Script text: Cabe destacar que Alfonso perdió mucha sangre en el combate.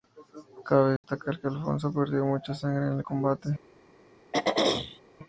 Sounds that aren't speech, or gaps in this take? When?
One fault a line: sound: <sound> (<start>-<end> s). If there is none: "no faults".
sound: dropout (1.0-1.0 s)
sound: throat clearing (4.3-5.0 s)